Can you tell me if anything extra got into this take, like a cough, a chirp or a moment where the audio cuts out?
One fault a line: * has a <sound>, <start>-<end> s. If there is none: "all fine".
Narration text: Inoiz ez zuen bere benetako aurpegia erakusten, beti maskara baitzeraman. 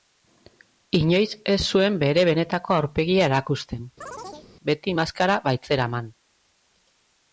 * has a chirp, 4.0-4.5 s